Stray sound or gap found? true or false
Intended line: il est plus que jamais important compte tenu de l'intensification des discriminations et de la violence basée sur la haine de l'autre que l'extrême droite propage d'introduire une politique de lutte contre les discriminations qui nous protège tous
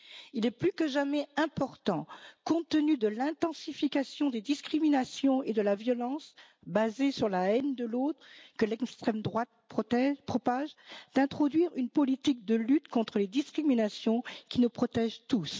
false